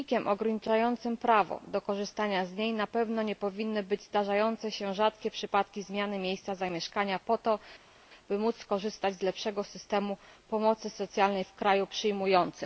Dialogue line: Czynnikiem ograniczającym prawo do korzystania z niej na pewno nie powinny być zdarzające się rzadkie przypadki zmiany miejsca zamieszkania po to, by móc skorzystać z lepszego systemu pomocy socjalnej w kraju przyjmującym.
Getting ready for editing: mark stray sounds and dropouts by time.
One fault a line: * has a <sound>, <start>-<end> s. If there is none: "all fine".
all fine